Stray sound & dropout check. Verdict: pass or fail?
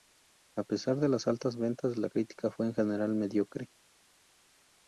pass